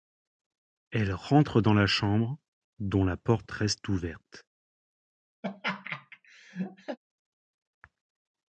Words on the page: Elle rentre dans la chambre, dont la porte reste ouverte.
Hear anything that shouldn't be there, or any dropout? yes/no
yes